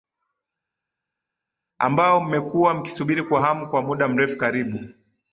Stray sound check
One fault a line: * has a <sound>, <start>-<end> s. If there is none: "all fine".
all fine